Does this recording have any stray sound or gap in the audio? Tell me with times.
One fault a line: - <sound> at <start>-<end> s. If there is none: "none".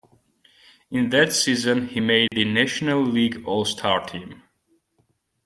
- dropout at 2.3-2.3 s